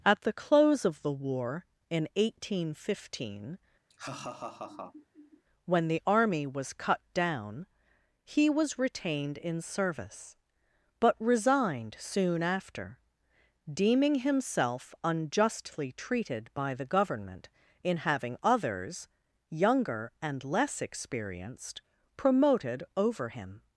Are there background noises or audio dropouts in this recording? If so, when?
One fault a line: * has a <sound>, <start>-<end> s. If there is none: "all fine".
* has a laugh, 3.9-5.4 s